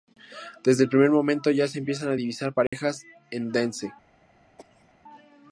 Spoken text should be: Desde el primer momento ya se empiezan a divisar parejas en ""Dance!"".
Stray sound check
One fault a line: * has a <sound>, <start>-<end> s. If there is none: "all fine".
* has a dropout, 2.7-2.7 s
* has a cough, 4.6-4.9 s